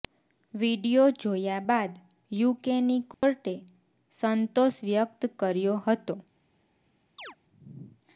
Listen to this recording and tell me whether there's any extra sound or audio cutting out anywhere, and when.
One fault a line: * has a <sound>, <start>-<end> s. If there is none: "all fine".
* has a dropout, 3.1-3.2 s
* has a chirp, 7.2-7.4 s